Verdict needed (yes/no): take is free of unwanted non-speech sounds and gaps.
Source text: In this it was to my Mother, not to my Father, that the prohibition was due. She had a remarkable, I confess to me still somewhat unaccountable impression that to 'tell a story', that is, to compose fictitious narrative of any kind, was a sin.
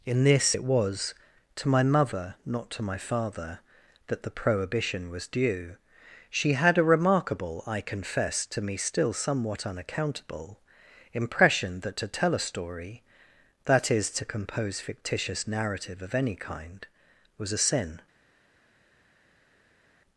yes